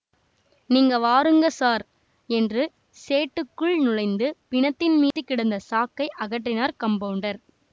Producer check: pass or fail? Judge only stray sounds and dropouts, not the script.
fail